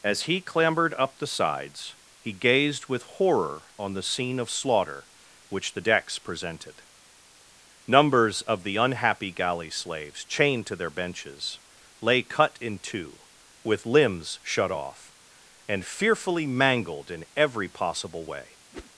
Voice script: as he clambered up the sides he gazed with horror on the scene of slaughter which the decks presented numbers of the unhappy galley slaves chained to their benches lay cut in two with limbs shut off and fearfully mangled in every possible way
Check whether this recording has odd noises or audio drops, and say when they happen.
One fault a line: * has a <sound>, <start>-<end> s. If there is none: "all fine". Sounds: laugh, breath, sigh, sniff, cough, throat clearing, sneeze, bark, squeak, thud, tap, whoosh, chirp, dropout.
* has a whoosh, 18.7-18.9 s